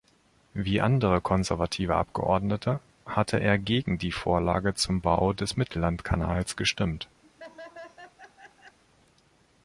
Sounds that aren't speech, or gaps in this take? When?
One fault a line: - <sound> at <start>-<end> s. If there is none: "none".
- laugh at 7.2-8.8 s